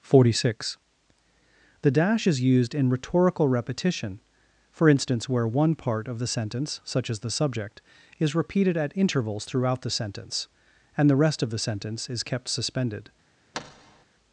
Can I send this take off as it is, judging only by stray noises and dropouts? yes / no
no